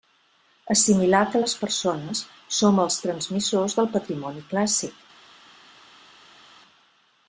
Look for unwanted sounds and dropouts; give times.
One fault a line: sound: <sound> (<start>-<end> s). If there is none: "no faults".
no faults